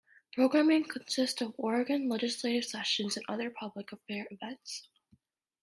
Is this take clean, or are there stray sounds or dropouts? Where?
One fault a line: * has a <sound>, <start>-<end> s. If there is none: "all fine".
all fine